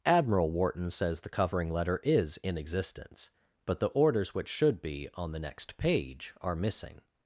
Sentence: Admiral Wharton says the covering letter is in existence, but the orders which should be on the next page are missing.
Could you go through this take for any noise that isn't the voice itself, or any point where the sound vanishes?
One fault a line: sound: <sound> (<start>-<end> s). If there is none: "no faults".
no faults